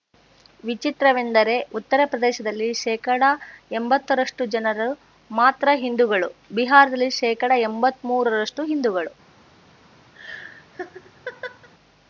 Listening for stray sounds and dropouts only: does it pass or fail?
fail